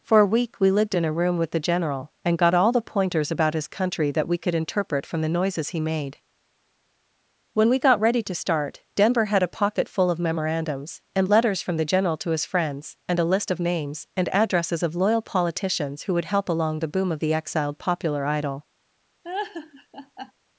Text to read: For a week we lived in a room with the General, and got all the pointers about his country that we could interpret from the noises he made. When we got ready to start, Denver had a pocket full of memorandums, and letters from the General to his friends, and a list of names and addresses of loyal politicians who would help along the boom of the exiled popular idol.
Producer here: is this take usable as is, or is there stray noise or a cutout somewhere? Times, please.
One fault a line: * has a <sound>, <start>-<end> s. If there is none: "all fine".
* has a laugh, 19.2-20.3 s